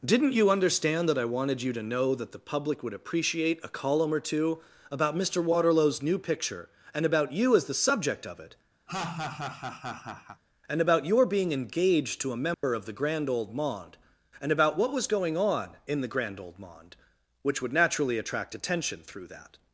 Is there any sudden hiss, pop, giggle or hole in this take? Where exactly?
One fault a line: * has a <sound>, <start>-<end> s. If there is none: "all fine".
* has a laugh, 8.9-10.4 s
* has a dropout, 12.5-12.6 s